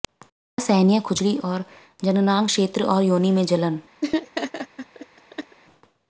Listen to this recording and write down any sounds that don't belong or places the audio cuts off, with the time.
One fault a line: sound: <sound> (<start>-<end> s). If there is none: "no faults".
sound: laugh (4.0-5.6 s)